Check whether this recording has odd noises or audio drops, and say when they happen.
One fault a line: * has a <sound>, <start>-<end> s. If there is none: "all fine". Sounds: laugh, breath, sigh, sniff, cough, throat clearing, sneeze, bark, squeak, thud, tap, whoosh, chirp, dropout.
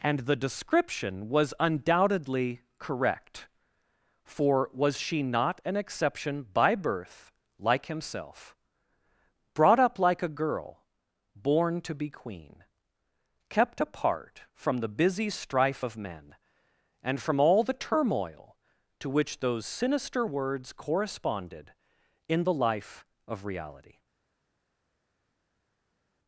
all fine